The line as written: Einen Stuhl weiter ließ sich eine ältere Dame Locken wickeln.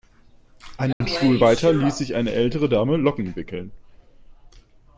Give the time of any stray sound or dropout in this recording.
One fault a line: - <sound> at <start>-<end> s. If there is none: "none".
- dropout at 0.9-1.0 s